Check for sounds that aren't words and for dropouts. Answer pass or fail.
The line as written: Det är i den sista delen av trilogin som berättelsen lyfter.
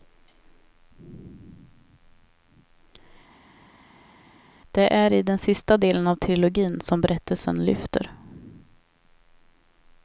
pass